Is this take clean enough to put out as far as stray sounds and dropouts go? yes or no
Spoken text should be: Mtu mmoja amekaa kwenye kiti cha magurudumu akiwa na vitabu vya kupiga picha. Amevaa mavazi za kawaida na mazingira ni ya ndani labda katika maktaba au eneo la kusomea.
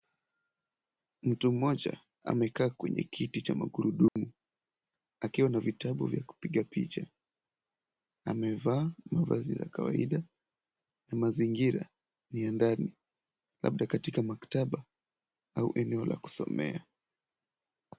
no